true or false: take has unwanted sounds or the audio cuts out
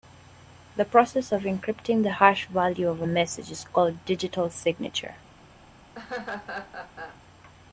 true